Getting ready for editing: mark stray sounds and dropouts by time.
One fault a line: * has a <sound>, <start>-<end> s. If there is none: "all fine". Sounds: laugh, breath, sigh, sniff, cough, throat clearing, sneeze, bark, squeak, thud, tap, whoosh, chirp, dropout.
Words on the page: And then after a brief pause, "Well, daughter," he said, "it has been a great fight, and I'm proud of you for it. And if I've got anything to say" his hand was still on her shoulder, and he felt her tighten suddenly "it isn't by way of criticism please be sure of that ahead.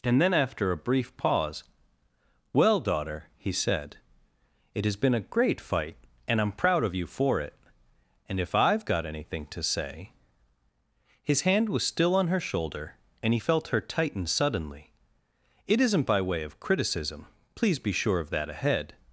all fine